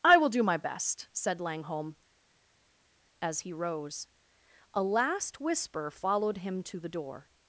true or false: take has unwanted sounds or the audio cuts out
false